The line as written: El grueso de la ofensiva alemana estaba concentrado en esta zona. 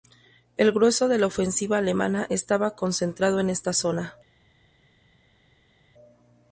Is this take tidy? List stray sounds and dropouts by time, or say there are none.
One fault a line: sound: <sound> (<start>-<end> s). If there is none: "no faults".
no faults